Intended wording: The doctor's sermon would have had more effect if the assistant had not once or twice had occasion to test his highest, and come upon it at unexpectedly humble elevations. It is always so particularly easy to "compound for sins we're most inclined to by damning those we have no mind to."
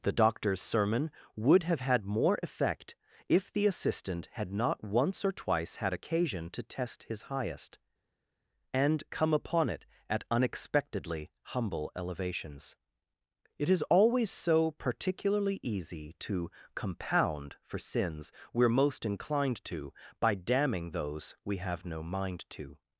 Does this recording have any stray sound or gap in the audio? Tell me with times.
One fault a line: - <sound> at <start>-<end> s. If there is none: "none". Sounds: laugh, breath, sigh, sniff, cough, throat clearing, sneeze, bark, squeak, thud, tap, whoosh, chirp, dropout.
none